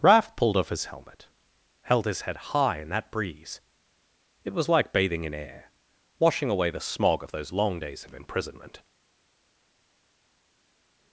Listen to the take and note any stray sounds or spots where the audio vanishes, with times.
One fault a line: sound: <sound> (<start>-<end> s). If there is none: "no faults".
no faults